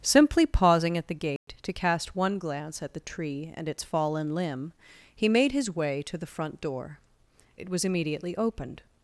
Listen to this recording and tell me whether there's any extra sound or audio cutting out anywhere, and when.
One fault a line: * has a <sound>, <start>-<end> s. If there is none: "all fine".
* has a dropout, 1.4-1.5 s